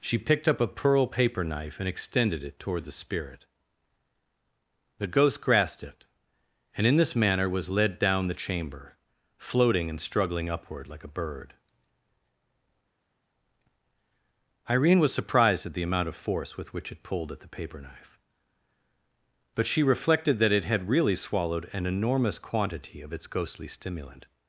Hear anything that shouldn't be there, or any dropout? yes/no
no